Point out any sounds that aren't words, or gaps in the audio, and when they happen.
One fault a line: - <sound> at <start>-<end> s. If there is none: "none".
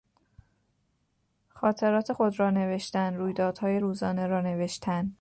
none